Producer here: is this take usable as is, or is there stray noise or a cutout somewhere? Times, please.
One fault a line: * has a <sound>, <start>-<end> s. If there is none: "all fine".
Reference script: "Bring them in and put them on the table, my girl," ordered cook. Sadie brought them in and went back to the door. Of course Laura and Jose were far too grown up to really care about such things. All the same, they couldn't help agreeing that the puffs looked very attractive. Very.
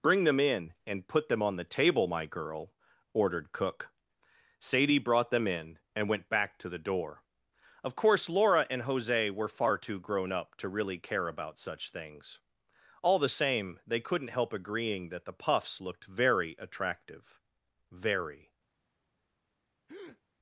* has a breath, 19.9-20.2 s